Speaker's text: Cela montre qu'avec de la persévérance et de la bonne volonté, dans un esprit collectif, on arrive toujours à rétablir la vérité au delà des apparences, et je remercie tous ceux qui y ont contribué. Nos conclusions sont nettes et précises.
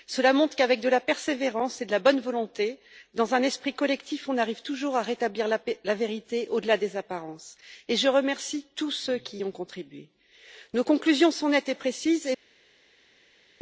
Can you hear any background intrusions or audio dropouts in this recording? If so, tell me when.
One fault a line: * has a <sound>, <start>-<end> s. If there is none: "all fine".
all fine